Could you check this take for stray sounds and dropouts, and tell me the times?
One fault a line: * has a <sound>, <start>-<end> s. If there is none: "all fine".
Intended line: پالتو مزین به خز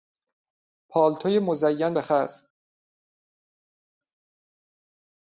all fine